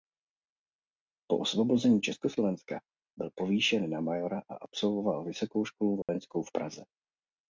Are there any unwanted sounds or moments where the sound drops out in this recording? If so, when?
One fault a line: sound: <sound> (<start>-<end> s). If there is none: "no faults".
sound: dropout (6.0-6.1 s)